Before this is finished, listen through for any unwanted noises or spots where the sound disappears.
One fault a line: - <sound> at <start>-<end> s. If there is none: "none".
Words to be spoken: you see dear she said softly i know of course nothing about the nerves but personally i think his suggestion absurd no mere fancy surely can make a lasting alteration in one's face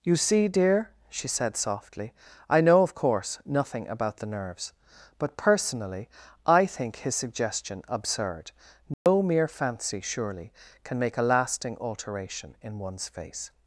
- dropout at 8.9-9.1 s